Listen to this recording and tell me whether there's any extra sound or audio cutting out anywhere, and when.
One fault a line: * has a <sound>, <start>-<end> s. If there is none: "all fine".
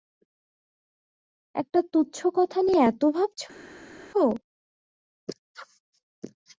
all fine